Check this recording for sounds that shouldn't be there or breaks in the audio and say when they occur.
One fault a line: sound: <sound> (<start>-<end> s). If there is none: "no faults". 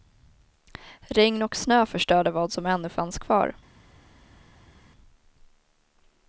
no faults